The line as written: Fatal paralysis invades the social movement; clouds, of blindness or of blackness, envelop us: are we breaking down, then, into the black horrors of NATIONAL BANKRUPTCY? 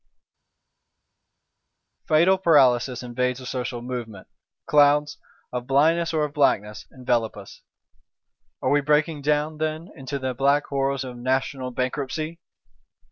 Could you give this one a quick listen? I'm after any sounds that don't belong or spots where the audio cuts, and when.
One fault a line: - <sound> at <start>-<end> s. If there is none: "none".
none